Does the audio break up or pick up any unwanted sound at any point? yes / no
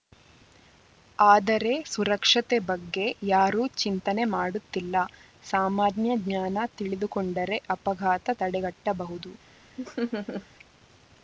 yes